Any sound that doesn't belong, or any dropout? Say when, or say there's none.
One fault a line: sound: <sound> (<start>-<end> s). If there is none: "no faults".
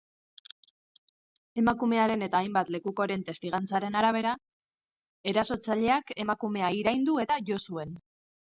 no faults